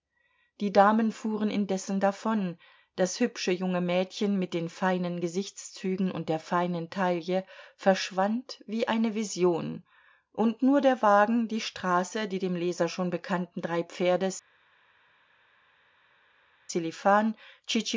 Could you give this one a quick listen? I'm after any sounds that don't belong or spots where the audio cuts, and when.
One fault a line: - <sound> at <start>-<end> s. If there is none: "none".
none